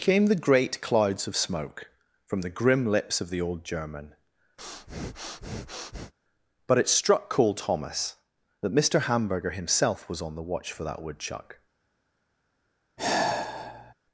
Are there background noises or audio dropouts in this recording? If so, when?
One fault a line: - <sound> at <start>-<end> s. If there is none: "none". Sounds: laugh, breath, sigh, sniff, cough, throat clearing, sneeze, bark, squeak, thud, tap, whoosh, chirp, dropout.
- breath at 4.6-6.1 s
- sigh at 13.0-13.9 s